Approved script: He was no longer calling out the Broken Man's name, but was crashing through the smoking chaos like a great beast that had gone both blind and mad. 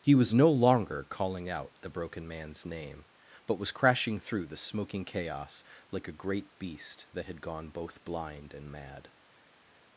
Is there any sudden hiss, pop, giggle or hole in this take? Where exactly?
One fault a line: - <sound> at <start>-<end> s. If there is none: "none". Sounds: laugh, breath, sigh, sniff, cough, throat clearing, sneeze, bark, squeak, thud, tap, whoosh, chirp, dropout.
none